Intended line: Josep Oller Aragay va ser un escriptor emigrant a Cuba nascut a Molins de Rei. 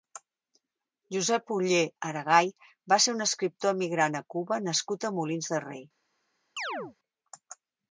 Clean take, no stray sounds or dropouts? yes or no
no